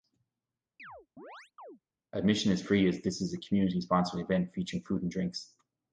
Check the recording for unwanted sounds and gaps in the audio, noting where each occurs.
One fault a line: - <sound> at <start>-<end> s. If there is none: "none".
- chirp at 0.8-1.8 s